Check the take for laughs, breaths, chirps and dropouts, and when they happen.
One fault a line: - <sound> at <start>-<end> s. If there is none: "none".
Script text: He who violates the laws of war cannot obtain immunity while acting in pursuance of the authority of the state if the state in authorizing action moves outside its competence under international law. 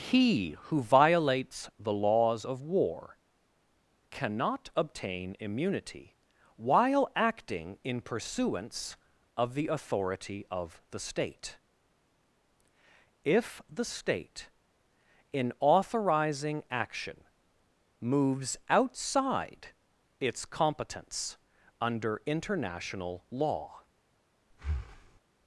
- breath at 24.5-25.2 s